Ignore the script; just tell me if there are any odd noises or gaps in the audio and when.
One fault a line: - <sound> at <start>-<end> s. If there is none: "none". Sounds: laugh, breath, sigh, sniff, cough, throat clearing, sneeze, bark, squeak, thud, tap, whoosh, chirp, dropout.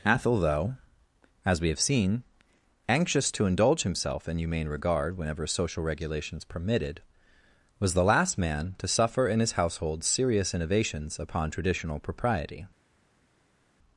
none